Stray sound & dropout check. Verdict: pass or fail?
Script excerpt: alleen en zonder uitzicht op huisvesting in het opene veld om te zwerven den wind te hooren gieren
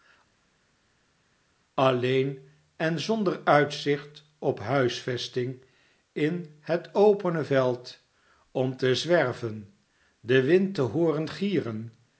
pass